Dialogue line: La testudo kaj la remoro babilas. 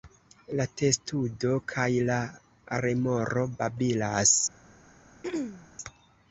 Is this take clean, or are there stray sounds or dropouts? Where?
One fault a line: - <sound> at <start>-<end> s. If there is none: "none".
- throat clearing at 5.2-5.7 s